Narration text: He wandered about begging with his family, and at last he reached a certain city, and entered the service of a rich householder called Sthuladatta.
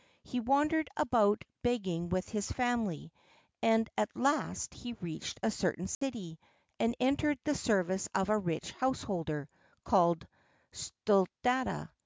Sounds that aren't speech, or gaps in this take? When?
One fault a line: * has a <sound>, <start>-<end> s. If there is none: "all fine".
* has a dropout, 5.9-6.0 s